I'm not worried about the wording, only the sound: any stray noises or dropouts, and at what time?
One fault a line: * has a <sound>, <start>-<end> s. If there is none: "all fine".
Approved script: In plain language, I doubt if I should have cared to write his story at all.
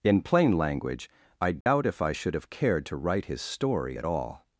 * has a dropout, 1.6-1.7 s